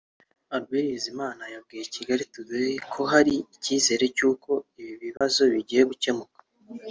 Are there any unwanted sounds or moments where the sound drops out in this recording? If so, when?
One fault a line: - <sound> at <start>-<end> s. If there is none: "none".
- dropout at 5.2-5.2 s